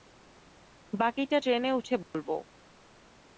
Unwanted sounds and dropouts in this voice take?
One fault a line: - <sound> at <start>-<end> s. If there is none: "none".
- dropout at 2.0-2.1 s